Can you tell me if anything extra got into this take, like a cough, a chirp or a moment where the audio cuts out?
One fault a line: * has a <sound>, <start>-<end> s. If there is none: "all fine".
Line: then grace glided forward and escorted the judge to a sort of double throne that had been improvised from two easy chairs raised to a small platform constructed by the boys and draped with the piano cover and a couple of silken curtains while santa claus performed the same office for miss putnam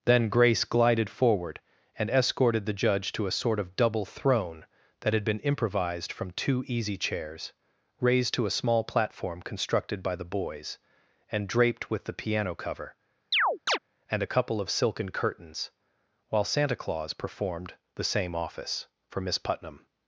* has a chirp, 13.3-13.8 s